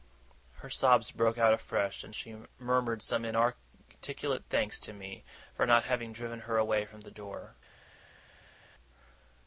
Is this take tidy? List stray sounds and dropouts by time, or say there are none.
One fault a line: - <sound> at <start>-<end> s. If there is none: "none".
none